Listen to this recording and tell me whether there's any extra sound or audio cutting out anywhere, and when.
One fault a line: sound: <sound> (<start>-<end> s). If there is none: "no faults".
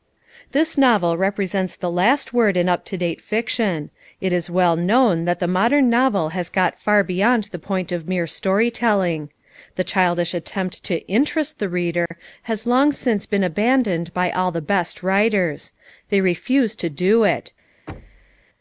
sound: dropout (12.1-12.1 s)
sound: thud (17.9-18.4 s)